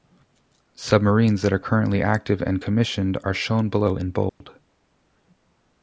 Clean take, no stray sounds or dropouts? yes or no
no